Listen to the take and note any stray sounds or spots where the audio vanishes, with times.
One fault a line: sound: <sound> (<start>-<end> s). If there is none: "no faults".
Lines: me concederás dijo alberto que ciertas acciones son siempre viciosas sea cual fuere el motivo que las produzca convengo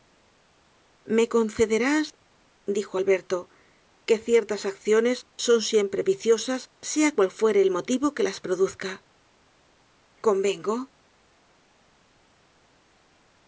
no faults